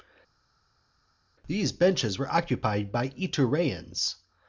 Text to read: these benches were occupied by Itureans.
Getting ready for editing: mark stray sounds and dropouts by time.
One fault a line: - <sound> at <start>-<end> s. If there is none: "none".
none